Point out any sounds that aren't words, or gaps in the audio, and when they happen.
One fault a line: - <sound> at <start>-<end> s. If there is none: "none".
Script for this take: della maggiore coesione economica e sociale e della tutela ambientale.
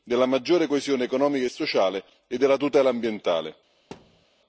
- thud at 3.9-4.3 s